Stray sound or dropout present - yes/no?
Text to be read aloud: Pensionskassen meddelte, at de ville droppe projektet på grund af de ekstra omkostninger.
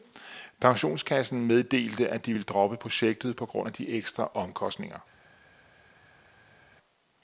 no